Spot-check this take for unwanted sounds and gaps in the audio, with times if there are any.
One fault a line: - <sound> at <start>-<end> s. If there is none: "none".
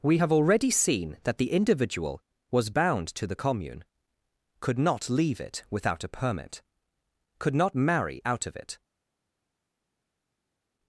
none